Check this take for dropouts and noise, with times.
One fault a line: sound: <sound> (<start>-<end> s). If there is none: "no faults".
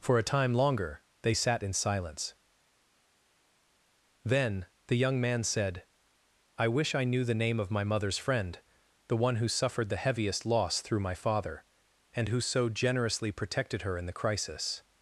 no faults